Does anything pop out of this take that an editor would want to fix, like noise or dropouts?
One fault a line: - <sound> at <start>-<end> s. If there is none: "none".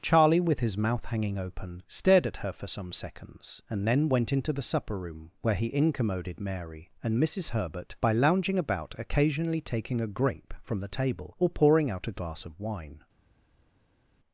none